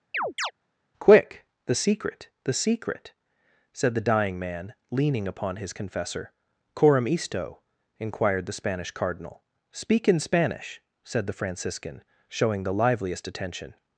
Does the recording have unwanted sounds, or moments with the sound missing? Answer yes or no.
yes